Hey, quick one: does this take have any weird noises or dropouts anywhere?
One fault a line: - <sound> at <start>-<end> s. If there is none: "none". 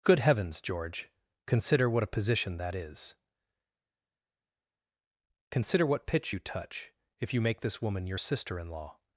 none